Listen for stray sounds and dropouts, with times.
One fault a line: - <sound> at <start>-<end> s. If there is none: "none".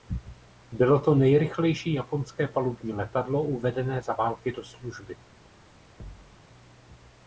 - thud at 6.0-6.4 s